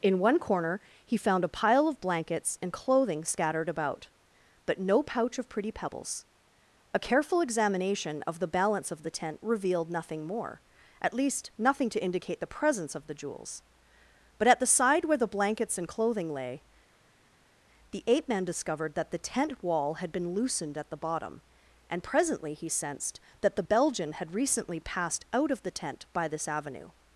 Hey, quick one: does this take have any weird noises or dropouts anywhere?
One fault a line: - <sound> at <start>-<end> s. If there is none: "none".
none